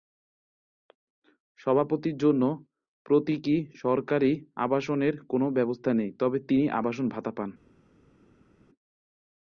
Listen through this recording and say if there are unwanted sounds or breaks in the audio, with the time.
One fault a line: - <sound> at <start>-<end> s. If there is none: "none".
none